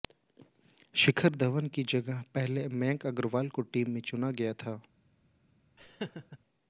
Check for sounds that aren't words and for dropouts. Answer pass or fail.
fail